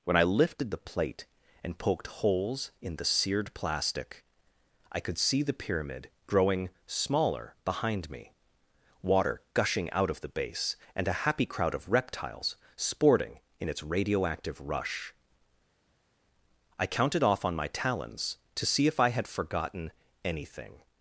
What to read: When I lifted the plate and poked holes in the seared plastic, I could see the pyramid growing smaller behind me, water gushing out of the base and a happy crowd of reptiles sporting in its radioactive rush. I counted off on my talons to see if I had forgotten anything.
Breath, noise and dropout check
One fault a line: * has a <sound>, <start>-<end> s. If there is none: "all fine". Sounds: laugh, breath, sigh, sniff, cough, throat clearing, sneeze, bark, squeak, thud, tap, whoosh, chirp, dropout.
all fine